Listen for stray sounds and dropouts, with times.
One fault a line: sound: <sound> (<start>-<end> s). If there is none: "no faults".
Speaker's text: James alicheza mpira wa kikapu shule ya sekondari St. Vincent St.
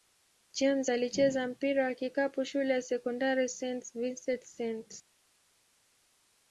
no faults